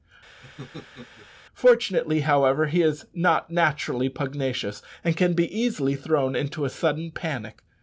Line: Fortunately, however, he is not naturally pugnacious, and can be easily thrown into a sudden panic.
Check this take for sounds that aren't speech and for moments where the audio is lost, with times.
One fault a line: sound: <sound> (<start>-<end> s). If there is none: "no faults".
sound: laugh (0.4-1.3 s)